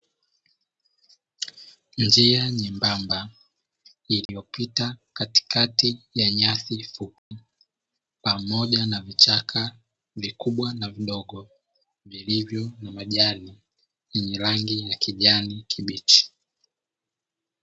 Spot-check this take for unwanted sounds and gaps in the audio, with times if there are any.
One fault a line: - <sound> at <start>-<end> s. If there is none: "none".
- dropout at 4.3-4.3 s
- dropout at 7.2-7.3 s